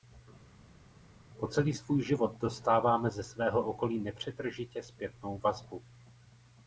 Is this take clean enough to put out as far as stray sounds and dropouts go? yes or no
yes